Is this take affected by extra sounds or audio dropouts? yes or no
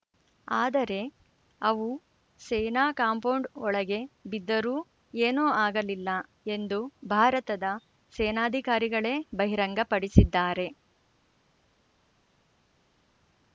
no